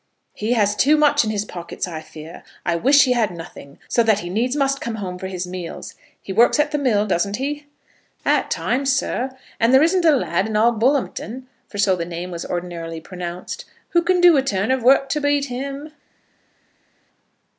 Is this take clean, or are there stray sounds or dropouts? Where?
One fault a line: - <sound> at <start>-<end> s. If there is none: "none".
none